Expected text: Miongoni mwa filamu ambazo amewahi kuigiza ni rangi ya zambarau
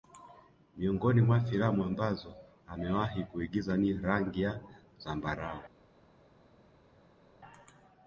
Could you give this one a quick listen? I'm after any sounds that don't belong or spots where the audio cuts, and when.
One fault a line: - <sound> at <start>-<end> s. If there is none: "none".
none